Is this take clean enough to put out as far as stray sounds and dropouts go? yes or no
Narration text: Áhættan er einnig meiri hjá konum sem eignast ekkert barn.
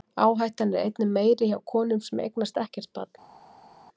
yes